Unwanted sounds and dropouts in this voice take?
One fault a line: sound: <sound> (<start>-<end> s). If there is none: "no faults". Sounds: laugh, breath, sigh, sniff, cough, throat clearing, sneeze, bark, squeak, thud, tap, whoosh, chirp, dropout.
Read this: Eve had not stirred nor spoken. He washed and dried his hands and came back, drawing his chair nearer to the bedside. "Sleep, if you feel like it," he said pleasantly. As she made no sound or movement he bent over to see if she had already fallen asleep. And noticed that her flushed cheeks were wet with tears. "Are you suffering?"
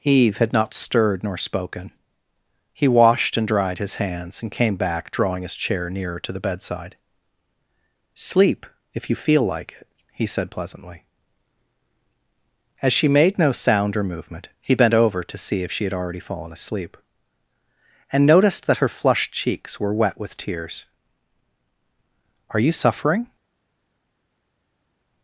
no faults